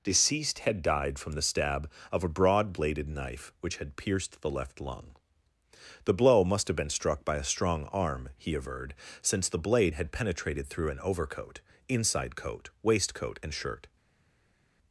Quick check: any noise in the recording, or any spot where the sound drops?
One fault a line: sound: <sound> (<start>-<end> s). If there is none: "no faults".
no faults